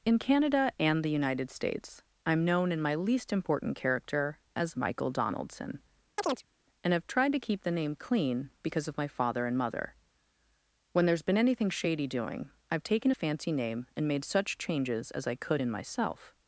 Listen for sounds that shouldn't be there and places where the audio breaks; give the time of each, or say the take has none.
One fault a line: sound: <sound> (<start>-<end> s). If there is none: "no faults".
sound: chirp (6.2-6.5 s)